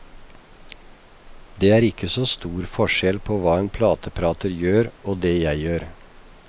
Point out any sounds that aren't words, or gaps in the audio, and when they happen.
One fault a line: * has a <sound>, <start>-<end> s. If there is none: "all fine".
all fine